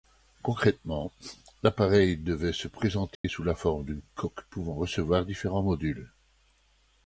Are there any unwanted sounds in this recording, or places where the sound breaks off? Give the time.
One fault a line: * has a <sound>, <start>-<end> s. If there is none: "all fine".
* has a dropout, 3.1-3.2 s